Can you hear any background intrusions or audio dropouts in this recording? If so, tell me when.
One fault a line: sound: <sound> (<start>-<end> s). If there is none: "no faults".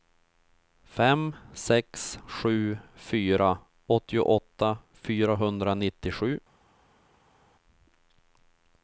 no faults